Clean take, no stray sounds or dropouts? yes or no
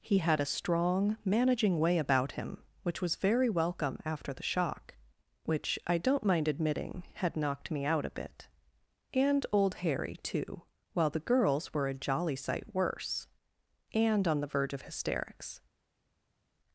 yes